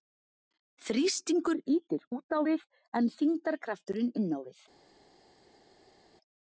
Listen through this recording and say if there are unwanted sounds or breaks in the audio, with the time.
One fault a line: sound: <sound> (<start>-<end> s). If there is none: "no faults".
no faults